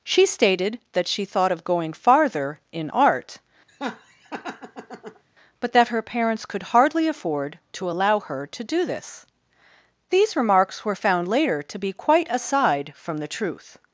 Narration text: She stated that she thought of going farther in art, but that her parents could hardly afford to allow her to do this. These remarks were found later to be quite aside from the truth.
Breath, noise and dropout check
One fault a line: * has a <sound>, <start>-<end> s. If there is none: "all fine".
* has a laugh, 3.7-5.2 s